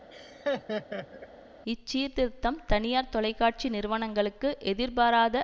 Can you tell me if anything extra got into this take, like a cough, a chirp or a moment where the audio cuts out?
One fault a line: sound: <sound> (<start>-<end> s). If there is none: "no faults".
sound: laugh (0.1-1.3 s)